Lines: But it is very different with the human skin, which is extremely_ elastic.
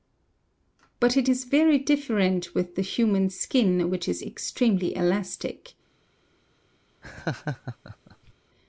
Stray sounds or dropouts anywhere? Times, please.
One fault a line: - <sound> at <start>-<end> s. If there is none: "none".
- laugh at 7.0-8.3 s